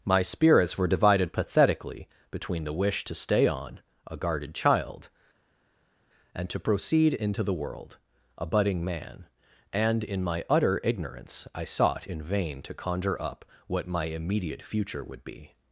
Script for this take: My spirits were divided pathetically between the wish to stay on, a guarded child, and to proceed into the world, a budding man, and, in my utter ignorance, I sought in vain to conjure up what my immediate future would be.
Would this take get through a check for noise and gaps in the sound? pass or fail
pass